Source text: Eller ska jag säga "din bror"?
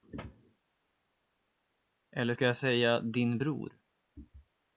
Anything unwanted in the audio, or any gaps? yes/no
no